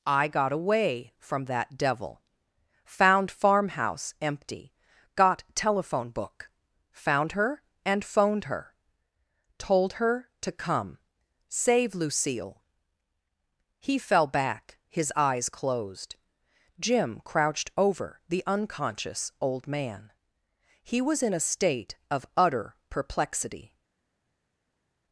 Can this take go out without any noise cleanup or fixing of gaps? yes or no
yes